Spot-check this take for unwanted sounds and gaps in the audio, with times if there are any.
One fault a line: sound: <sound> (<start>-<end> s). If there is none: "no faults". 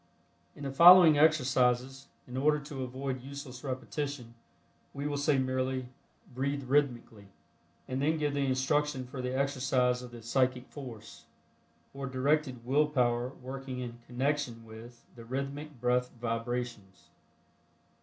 no faults